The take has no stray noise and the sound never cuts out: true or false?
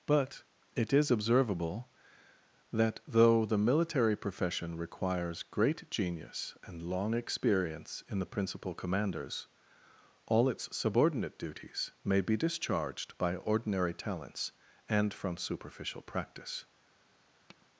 false